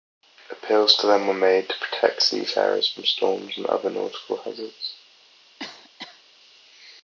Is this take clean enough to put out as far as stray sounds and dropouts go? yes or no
no